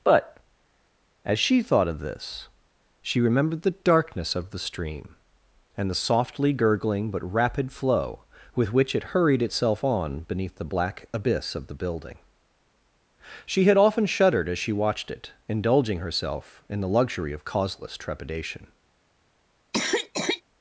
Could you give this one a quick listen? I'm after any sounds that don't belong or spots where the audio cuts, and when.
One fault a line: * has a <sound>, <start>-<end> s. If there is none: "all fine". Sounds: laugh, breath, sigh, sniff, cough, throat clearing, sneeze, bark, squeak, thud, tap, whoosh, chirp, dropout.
* has a cough, 19.7-20.4 s